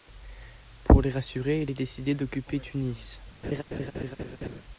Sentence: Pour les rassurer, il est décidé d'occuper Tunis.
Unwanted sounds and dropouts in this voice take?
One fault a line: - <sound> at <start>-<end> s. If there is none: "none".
- laugh at 3.4-4.6 s